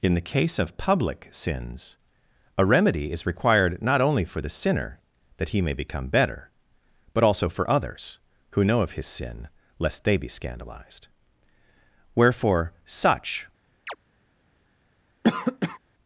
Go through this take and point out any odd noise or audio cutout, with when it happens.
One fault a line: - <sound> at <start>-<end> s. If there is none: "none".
- chirp at 13.9-14.0 s
- cough at 15.2-15.8 s